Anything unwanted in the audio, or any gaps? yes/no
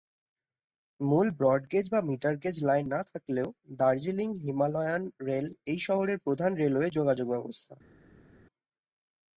no